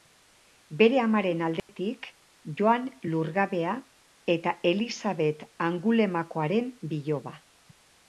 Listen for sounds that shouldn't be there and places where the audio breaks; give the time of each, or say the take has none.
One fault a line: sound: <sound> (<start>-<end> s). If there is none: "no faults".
sound: dropout (1.6-1.7 s)